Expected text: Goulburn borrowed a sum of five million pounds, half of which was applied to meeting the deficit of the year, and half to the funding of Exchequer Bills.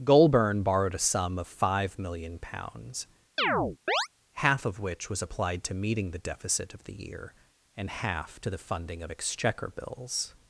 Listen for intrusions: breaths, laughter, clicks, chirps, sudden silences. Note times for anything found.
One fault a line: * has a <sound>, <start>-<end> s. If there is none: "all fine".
* has a chirp, 3.4-4.1 s